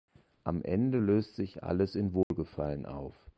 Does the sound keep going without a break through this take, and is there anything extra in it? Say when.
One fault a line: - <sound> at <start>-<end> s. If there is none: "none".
- dropout at 2.2-2.3 s